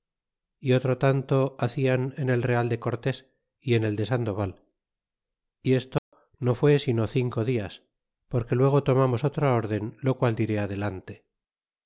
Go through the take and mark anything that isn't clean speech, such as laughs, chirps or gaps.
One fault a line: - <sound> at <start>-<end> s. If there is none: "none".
- dropout at 6.0-6.1 s